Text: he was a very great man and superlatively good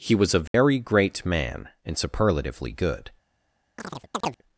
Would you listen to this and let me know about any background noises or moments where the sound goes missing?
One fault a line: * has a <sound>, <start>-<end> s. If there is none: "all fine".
* has a dropout, 0.5-0.5 s
* has a chirp, 3.8-4.4 s